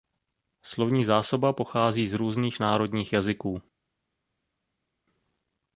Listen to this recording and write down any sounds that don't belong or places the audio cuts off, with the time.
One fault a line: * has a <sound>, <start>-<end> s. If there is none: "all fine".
all fine